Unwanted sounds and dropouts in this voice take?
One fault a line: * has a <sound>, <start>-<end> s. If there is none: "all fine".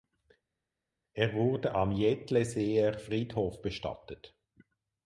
all fine